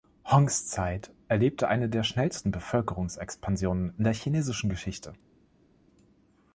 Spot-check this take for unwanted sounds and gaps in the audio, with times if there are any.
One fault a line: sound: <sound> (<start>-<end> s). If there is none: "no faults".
no faults